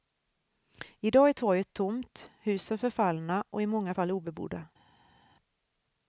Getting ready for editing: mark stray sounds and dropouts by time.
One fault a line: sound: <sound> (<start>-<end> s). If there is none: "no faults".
no faults